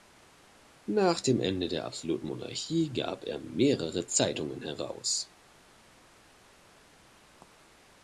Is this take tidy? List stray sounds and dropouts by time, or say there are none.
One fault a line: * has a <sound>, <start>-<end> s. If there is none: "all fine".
all fine